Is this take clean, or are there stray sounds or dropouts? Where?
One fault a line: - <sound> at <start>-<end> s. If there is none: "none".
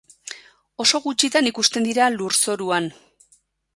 none